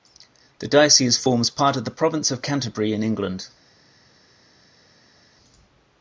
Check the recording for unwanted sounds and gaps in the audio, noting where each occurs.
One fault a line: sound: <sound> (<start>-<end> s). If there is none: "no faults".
no faults